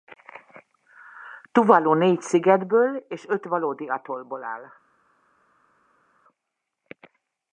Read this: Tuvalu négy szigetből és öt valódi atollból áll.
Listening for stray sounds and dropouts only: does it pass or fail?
pass